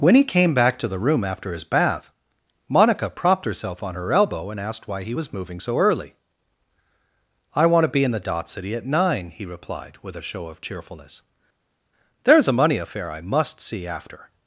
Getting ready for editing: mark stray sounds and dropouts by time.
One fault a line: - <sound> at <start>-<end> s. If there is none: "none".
none